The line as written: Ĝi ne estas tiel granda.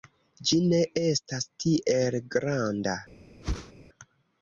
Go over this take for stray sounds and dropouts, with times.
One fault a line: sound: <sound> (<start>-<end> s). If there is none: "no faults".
sound: whoosh (3.4-3.7 s)